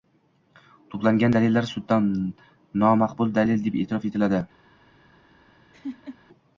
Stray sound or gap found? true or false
true